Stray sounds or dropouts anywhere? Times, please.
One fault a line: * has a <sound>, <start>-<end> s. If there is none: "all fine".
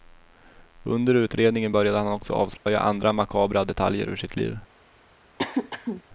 * has a dropout, 2.6-2.7 s
* has a throat clearing, 5.4-6.0 s